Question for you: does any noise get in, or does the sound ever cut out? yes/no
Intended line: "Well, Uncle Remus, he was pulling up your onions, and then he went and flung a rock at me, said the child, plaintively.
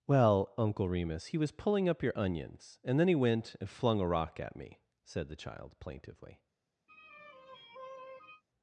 yes